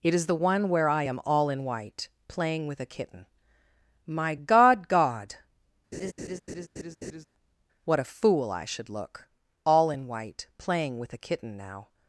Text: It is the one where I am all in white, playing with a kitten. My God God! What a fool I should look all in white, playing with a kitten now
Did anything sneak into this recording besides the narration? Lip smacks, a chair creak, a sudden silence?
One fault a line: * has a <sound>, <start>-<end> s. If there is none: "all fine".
* has a laugh, 5.9-7.3 s